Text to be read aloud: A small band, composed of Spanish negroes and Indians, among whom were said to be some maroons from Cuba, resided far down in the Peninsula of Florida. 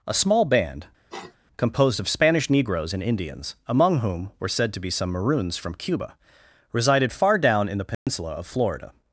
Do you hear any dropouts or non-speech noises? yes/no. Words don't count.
yes